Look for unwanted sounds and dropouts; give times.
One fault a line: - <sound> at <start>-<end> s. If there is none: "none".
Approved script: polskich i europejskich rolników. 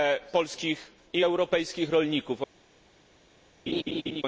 - laugh at 3.7-4.2 s